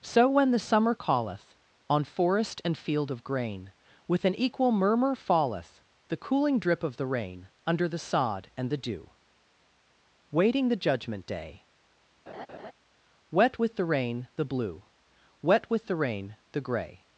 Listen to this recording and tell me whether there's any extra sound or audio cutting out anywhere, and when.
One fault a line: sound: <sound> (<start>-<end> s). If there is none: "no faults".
sound: laugh (12.3-12.7 s)